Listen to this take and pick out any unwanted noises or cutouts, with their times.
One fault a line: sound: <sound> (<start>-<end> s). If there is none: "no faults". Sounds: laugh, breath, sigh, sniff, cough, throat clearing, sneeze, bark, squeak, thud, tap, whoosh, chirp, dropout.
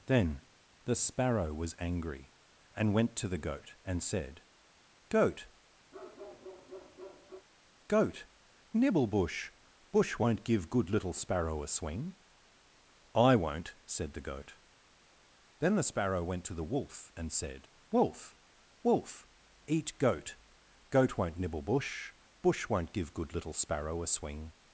sound: bark (5.9-7.5 s)